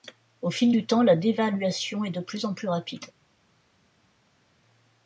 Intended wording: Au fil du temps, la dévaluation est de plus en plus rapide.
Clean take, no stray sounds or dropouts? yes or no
yes